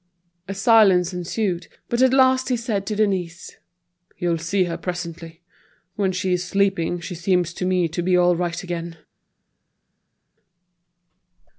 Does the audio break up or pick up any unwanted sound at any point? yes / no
no